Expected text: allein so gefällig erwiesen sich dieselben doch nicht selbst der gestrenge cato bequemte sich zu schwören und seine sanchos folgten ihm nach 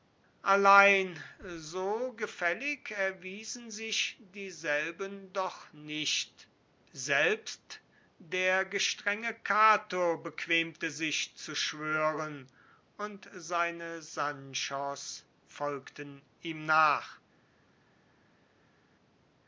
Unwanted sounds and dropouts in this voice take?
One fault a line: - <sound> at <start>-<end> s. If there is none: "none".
none